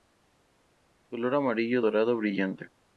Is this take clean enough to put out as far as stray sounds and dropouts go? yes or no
yes